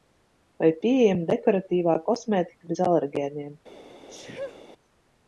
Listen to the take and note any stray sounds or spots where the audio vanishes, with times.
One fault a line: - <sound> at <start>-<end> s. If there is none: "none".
- sneeze at 4.1-4.6 s